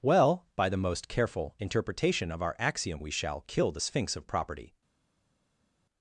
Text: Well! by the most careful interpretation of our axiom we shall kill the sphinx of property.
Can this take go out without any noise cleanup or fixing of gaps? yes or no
yes